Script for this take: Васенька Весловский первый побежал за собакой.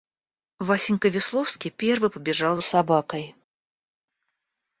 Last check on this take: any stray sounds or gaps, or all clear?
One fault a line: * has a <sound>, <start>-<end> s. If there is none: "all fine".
all fine